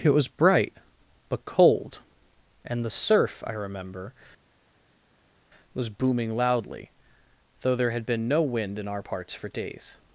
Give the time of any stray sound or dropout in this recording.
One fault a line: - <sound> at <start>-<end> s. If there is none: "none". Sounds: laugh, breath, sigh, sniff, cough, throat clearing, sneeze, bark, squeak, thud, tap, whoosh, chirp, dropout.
none